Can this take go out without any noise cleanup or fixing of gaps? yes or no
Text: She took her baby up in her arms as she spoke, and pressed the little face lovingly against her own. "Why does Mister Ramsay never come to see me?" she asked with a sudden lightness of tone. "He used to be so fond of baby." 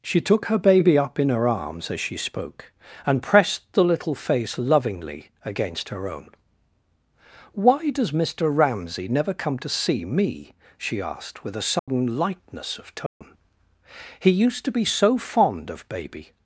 no